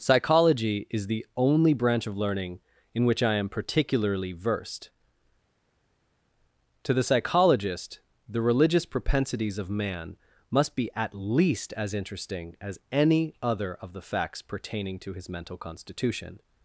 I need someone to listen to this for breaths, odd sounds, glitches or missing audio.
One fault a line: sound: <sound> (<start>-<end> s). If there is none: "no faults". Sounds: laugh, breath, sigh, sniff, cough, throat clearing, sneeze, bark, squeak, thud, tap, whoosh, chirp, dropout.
no faults